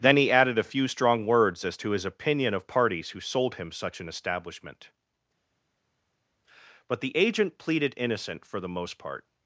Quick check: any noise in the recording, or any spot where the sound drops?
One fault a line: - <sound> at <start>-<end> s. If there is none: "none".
none